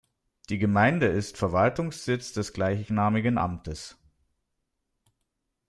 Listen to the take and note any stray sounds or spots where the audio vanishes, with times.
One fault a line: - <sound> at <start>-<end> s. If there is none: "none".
none